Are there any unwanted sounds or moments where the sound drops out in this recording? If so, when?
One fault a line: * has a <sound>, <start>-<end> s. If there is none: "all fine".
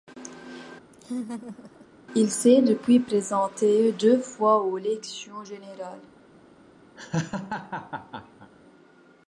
* has a laugh, 0.9-1.9 s
* has a laugh, 7.0-8.5 s